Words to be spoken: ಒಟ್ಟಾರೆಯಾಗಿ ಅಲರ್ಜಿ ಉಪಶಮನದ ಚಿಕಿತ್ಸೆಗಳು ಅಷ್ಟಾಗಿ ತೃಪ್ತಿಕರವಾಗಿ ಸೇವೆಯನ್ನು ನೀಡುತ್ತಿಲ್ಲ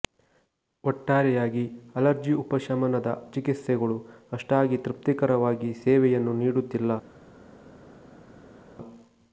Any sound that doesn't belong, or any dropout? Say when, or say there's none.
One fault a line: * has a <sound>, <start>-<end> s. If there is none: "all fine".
all fine